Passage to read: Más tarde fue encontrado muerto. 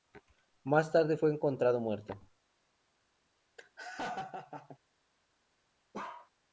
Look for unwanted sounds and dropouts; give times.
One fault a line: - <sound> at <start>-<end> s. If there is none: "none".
- laugh at 3.6-4.8 s
- bark at 5.9-6.3 s